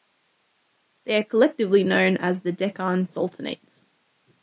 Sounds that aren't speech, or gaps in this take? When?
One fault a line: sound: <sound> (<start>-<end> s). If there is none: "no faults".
no faults